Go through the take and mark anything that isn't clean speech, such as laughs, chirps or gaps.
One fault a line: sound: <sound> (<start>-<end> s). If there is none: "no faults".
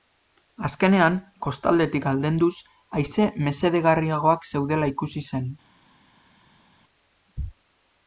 no faults